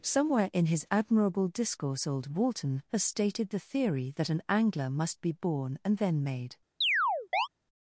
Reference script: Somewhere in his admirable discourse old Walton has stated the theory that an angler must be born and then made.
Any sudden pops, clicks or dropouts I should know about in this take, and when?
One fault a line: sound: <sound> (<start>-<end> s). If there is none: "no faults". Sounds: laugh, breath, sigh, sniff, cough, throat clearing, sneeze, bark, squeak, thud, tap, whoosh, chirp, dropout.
sound: chirp (6.8-7.5 s)